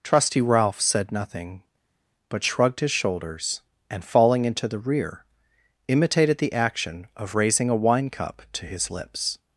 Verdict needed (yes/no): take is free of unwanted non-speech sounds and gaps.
yes